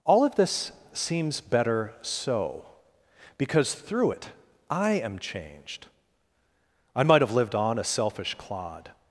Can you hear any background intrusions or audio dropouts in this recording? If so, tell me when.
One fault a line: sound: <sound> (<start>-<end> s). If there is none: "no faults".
no faults